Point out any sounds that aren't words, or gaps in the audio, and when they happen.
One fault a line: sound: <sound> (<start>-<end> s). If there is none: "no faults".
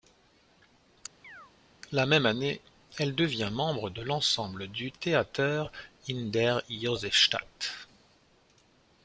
sound: chirp (1.2-1.5 s)